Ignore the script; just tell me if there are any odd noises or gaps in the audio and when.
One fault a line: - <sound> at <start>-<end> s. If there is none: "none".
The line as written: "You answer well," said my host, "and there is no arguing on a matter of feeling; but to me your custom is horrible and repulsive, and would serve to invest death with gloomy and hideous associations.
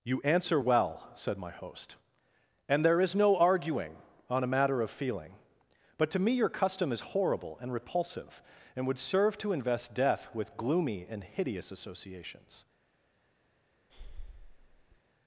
- breath at 13.9-15.0 s